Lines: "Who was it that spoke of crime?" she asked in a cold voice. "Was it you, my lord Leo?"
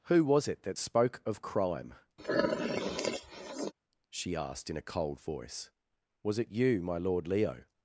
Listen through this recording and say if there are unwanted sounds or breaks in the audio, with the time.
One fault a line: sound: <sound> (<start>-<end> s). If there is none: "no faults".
sound: sniff (2.2-3.7 s)